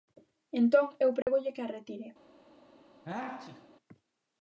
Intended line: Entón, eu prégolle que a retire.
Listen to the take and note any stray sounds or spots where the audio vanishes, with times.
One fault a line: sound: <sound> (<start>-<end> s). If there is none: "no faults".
sound: dropout (1.2-1.3 s)
sound: sneeze (3.1-3.7 s)